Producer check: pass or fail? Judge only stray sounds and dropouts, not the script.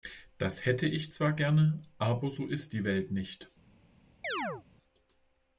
fail